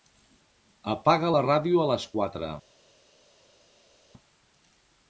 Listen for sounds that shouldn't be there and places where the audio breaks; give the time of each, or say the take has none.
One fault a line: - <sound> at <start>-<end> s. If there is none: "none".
none